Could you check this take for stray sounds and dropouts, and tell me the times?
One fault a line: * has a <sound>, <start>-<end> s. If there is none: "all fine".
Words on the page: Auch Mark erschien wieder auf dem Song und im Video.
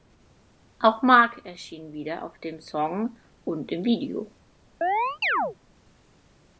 * has a chirp, 4.8-5.6 s